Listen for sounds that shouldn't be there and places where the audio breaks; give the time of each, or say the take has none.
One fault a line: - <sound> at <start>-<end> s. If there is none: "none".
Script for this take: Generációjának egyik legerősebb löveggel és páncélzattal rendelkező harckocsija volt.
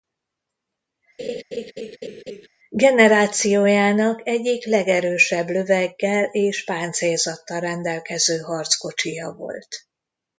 - laugh at 1.2-2.5 s